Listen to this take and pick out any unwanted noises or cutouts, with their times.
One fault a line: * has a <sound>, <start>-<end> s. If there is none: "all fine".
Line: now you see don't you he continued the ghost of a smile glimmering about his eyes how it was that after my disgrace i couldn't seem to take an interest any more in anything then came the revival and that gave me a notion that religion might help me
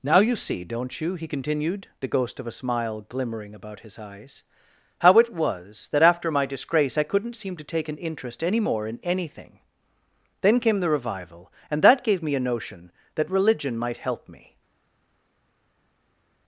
all fine